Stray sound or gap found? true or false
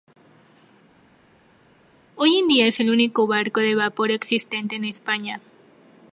false